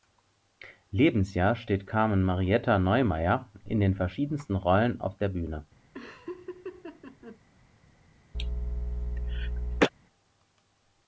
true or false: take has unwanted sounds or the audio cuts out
true